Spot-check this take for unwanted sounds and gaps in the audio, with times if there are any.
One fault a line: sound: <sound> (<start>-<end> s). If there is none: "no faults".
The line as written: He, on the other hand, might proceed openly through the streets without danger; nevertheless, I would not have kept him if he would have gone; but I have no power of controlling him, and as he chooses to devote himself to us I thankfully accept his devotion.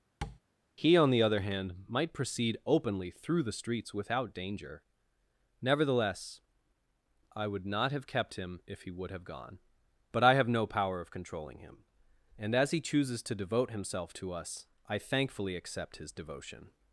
sound: tap (0.2-0.4 s)